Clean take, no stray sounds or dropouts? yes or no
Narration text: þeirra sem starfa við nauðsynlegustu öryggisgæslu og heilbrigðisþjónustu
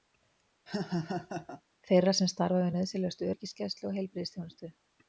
no